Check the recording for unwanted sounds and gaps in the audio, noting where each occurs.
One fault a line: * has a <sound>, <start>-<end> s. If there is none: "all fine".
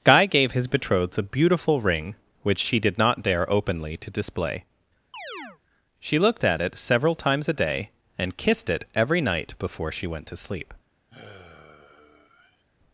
* has a chirp, 5.1-5.6 s
* has a sigh, 11.1-12.6 s